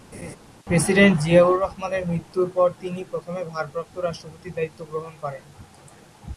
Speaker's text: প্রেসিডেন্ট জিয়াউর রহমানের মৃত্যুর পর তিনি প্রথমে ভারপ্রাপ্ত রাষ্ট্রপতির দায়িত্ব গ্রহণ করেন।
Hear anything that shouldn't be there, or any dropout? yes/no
yes